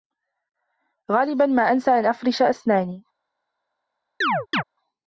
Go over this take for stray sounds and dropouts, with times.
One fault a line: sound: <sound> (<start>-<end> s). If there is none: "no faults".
sound: chirp (4.2-4.6 s)